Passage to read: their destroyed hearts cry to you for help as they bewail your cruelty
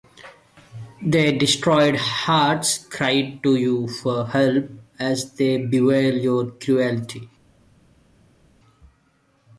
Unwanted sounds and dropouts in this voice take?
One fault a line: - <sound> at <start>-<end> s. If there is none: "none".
none